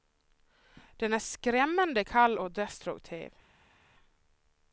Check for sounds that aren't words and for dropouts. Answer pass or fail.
pass